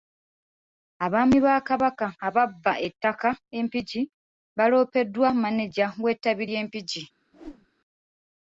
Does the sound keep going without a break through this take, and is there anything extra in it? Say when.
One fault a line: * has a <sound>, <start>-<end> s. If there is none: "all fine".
* has a whoosh, 7.3-7.7 s